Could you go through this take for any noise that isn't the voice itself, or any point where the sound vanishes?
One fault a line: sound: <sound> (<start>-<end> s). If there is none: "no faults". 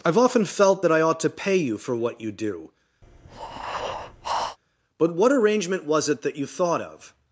sound: breath (3.0-4.6 s)